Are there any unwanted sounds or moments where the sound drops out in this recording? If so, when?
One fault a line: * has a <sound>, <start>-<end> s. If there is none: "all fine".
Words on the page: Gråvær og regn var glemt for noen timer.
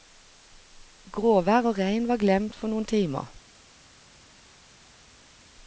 all fine